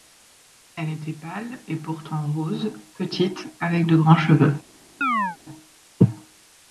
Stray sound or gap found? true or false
true